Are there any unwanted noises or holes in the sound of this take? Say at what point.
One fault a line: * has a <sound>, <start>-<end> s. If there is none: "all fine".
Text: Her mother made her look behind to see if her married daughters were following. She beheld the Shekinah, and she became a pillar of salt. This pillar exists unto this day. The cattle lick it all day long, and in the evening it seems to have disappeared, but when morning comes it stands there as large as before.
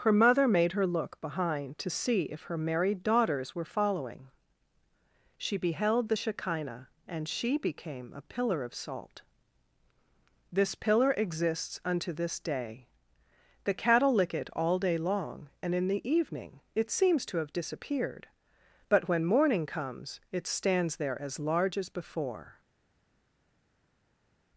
all fine